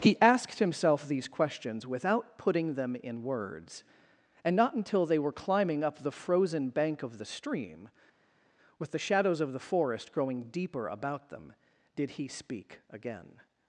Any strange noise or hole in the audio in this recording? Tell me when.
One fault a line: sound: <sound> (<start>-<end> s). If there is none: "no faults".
no faults